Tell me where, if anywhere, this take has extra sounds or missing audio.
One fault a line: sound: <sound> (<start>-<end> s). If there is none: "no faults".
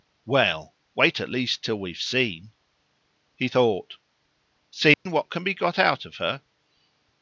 sound: dropout (4.9-5.1 s)